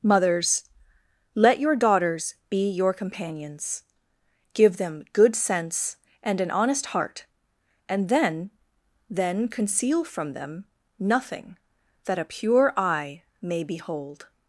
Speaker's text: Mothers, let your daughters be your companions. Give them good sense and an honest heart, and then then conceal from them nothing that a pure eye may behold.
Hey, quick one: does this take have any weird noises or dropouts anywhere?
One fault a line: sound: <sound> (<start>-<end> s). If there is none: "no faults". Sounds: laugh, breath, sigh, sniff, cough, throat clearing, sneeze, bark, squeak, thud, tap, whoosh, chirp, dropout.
no faults